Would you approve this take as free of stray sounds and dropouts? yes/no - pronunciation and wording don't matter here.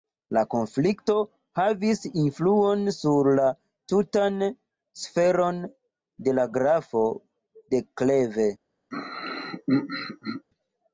no